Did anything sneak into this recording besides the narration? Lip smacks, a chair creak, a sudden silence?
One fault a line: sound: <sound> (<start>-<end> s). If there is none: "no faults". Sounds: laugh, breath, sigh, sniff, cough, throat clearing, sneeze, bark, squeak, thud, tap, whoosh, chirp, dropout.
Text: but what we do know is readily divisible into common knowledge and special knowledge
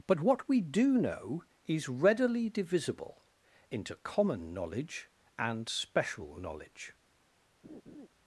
sound: laugh (7.6-8.1 s)